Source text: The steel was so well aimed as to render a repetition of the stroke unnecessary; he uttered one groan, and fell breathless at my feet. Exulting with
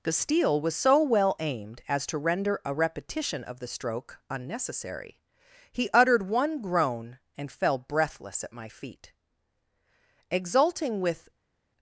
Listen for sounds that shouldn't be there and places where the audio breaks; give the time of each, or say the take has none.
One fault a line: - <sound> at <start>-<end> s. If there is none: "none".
none